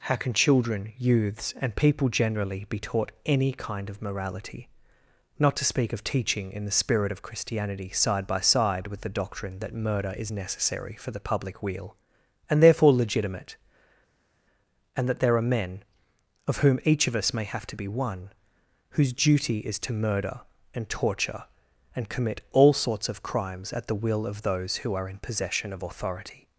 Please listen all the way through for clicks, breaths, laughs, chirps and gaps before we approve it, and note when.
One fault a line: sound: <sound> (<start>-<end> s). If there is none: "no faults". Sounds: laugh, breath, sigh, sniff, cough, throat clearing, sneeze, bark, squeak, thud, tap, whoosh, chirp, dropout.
no faults